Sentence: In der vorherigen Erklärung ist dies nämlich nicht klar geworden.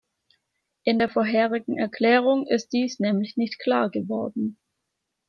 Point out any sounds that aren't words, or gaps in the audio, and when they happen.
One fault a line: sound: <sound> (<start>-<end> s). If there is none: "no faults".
no faults